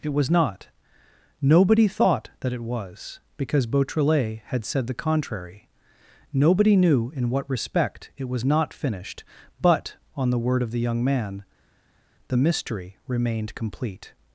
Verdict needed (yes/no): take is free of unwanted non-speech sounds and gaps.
yes